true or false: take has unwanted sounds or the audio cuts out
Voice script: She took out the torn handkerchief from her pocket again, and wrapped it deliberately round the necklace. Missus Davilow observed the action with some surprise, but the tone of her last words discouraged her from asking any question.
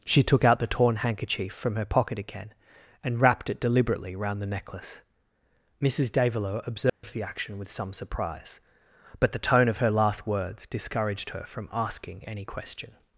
true